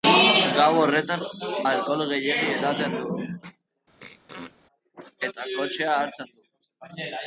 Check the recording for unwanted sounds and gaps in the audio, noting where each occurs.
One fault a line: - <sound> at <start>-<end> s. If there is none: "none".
- throat clearing at 4.0-4.6 s